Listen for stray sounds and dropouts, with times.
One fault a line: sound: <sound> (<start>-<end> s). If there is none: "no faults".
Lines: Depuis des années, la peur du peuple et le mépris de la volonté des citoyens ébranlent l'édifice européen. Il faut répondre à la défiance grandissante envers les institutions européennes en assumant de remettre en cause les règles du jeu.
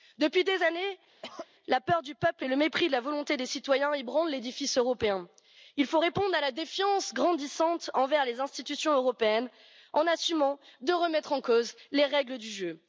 sound: cough (1.2-1.5 s)